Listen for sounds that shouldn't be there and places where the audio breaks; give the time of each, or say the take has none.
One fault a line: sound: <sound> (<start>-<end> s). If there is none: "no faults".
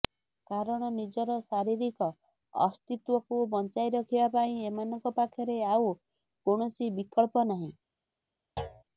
sound: thud (8.6-8.8 s)